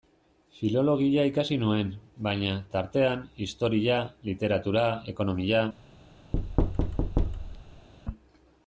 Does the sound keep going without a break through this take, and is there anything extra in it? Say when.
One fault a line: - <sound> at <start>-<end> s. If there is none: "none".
- thud at 6.3-7.9 s